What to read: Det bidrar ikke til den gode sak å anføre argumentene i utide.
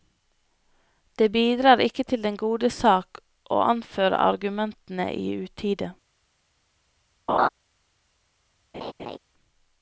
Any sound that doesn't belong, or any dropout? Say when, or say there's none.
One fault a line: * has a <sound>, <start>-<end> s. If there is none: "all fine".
* has a laugh, 7.3-7.5 s
* has a laugh, 8.7-9.2 s